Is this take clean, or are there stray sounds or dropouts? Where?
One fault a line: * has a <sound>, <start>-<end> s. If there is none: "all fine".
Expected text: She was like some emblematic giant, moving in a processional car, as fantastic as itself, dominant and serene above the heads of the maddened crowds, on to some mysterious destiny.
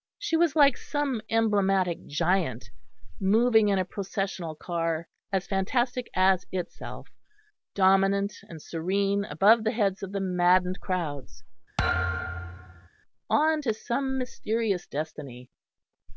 * has a thud, 11.8-12.9 s